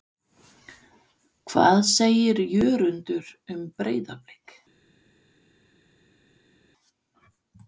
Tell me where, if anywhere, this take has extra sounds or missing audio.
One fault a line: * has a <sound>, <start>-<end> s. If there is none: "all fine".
all fine